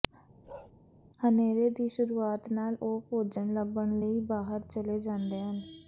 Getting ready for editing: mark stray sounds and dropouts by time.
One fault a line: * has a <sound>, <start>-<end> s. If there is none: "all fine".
* has a bark, 0.4-0.7 s